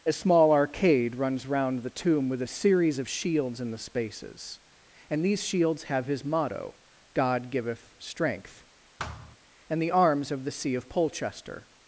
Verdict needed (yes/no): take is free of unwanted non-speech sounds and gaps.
no